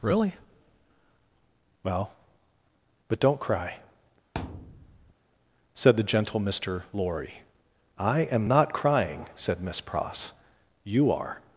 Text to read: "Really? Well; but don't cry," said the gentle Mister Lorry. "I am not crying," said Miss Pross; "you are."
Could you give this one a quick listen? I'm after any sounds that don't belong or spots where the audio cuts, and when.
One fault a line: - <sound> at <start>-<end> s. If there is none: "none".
- thud at 4.3-5.1 s